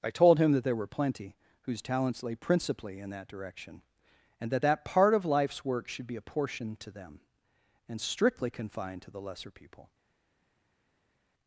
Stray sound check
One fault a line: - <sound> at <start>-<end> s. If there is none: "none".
none